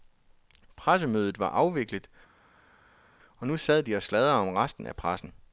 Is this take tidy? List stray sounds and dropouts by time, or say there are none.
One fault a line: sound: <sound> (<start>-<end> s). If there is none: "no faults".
no faults